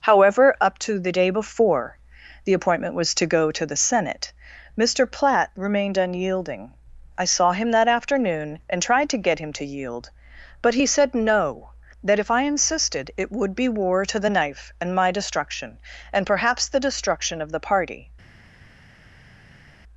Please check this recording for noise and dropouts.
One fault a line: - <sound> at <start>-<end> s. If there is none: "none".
none